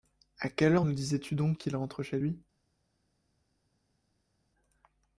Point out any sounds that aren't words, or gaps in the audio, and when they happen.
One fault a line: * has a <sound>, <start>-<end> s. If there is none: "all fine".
all fine